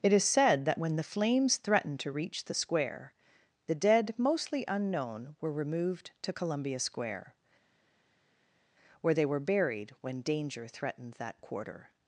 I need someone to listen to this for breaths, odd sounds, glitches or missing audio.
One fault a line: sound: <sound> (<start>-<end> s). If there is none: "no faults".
no faults